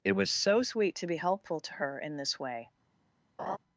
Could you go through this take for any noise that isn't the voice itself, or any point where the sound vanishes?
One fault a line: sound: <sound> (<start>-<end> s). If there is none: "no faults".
sound: laugh (3.4-3.6 s)